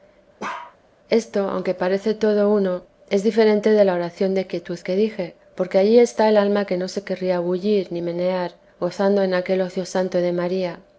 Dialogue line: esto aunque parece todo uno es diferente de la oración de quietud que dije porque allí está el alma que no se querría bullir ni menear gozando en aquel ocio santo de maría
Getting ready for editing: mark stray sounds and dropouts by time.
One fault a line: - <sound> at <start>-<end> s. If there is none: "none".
- bark at 0.4-0.8 s